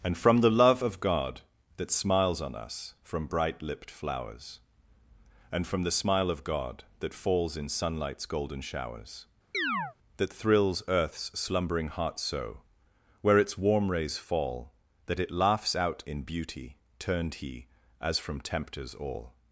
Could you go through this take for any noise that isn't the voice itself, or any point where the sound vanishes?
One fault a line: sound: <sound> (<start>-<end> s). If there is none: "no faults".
sound: chirp (9.5-10.0 s)